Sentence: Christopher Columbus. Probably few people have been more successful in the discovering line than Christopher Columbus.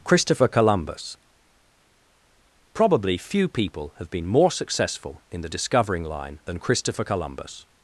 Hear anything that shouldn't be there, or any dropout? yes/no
no